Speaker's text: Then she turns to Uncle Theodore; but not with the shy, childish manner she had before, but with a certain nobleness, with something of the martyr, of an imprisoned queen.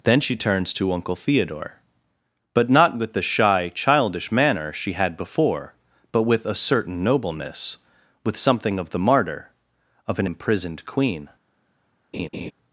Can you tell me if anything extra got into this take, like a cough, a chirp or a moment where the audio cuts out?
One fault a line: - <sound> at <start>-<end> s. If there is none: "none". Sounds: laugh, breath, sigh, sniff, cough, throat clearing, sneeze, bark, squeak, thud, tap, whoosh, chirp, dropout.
- laugh at 12.1-12.5 s